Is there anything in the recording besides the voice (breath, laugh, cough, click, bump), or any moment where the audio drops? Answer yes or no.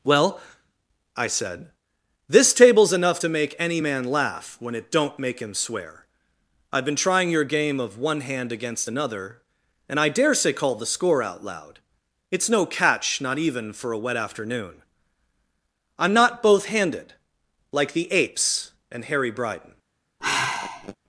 yes